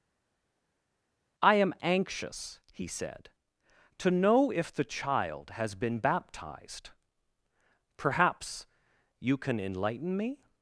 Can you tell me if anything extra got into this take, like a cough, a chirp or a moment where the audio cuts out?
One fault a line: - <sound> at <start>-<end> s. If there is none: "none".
none